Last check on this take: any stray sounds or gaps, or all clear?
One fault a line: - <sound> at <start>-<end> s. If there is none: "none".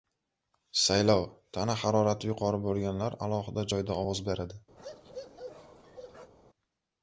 - bark at 4.8-6.3 s